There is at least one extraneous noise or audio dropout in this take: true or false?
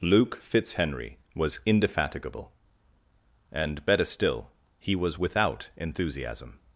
false